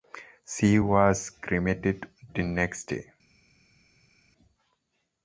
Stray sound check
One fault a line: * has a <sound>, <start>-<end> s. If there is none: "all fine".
all fine